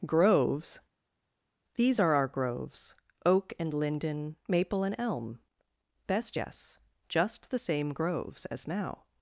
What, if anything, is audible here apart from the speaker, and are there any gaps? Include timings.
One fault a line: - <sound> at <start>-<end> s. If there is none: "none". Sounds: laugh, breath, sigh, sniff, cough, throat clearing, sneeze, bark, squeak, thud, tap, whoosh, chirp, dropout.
none